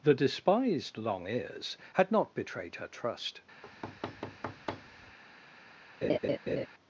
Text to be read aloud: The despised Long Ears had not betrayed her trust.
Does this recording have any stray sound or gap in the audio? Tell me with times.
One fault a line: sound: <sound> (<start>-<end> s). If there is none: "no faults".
sound: thud (3.6-5.2 s)
sound: laugh (6.0-6.7 s)